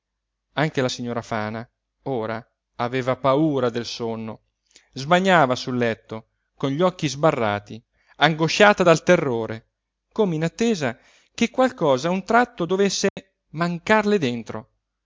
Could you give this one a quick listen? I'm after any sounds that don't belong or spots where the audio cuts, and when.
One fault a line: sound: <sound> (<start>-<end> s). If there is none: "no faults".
sound: dropout (13.1-13.2 s)